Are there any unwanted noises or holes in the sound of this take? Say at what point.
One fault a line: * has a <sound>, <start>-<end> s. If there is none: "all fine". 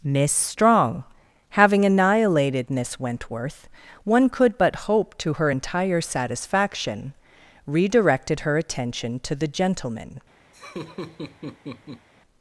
* has a laugh, 10.5-12.1 s